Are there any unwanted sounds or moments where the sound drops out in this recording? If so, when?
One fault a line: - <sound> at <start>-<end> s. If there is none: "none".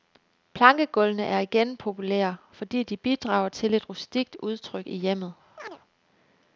- chirp at 5.6-5.8 s